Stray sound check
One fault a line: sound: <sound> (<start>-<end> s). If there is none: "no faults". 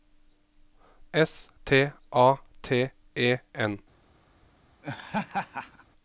sound: laugh (4.8-5.8 s)